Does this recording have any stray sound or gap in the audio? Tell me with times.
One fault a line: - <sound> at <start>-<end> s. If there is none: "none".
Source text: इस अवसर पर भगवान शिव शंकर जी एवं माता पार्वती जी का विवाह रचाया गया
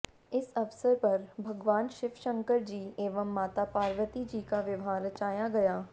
none